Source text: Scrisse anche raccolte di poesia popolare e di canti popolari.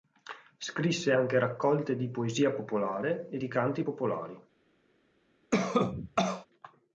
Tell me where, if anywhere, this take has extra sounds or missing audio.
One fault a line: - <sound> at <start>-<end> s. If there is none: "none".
- cough at 5.5-6.5 s